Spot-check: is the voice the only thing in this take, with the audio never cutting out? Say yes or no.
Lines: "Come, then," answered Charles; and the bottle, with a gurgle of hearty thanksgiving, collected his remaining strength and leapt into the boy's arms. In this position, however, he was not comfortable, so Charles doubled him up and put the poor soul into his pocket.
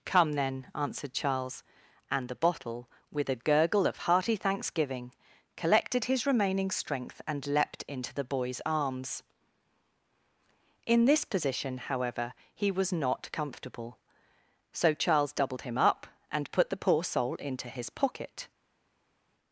yes